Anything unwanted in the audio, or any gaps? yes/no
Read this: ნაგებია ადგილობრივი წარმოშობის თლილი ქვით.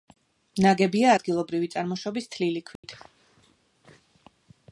yes